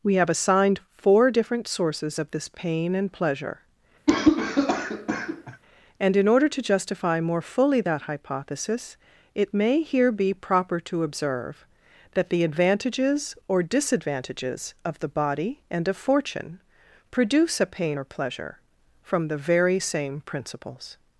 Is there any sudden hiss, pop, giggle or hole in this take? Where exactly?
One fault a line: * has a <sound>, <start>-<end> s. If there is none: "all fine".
* has a cough, 4.1-5.6 s